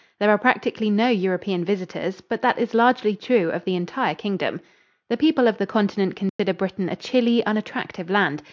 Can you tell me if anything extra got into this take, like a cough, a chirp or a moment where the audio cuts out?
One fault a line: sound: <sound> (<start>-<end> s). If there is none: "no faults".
sound: dropout (6.3-6.4 s)